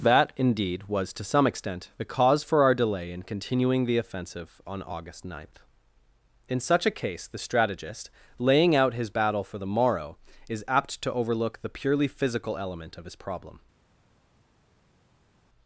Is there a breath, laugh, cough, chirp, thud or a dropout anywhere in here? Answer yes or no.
no